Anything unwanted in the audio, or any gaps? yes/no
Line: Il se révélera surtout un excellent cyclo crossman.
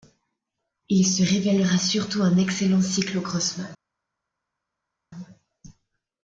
no